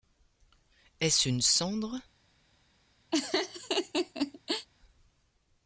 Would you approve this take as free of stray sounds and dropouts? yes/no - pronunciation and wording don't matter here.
no